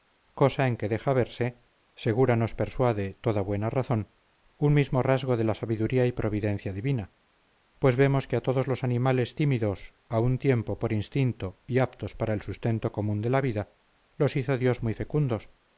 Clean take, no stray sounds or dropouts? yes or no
yes